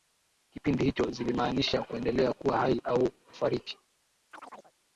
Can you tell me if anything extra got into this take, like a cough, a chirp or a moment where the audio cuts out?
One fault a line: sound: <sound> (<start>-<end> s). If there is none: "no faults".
sound: chirp (4.3-4.7 s)